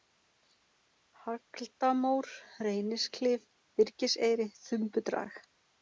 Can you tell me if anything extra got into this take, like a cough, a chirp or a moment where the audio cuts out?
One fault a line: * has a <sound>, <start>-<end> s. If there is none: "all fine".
all fine